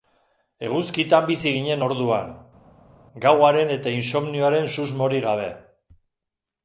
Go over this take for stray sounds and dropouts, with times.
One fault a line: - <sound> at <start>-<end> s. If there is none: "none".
none